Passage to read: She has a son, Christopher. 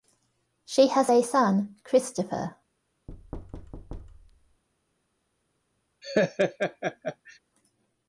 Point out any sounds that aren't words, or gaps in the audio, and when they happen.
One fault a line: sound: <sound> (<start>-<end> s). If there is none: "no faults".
sound: thud (3.1-4.6 s)
sound: laugh (6.0-7.4 s)